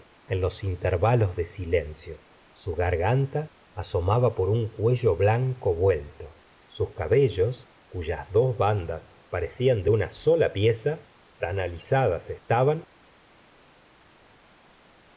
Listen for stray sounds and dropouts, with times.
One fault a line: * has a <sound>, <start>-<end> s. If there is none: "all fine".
all fine